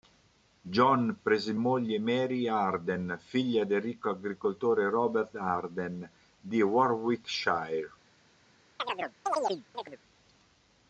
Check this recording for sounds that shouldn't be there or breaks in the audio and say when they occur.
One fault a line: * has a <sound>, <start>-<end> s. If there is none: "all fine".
* has a chirp, 8.8-10.0 s